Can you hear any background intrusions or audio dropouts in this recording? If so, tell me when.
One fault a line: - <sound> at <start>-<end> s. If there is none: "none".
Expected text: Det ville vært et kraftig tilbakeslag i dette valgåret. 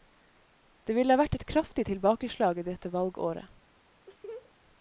- laugh at 4.1-4.5 s